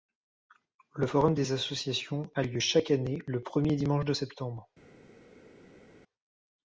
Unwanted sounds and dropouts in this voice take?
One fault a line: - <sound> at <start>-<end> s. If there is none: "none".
none